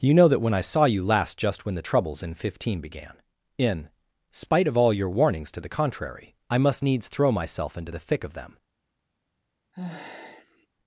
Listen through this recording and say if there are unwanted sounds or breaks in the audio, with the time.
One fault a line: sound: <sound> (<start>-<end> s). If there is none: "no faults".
sound: sigh (9.7-10.7 s)